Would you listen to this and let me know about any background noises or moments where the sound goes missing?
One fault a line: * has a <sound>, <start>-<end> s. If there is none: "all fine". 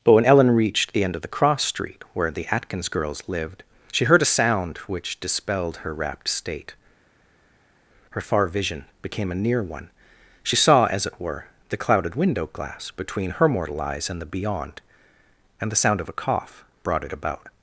all fine